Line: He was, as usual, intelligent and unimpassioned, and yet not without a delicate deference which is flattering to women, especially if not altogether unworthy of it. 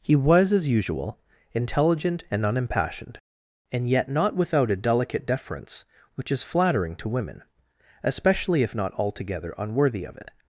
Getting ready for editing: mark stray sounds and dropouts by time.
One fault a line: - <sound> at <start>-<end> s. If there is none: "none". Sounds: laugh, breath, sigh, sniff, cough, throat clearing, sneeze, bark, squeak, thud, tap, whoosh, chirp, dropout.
none